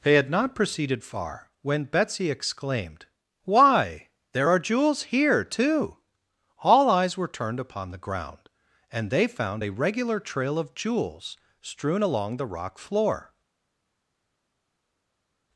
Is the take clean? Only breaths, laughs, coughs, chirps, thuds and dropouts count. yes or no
yes